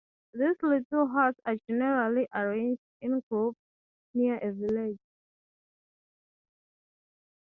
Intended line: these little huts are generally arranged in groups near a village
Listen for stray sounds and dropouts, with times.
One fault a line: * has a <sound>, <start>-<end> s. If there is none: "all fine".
all fine